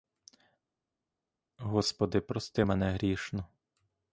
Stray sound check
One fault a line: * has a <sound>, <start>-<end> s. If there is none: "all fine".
all fine